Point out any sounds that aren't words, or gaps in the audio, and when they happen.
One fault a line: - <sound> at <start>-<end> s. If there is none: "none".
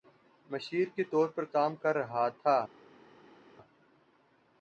none